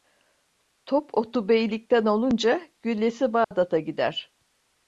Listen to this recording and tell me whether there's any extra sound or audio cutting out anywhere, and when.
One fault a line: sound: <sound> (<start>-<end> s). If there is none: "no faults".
sound: dropout (3.4-3.5 s)